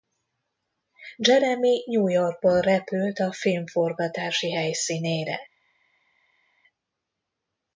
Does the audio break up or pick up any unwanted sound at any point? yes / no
no